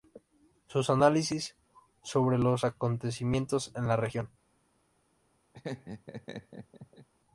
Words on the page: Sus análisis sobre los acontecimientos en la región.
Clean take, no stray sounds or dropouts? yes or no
no